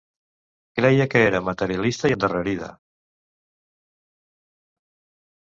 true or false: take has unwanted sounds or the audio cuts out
false